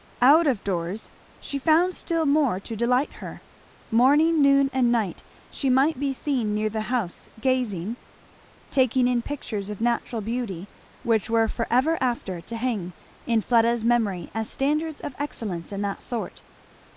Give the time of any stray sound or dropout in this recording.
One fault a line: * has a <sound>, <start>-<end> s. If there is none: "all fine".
all fine